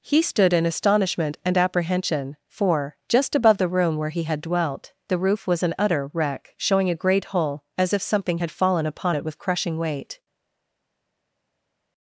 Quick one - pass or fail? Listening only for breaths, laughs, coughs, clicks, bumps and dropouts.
pass